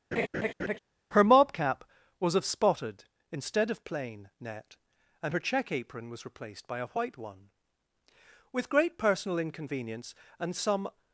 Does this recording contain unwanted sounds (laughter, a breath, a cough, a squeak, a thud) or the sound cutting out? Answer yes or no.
yes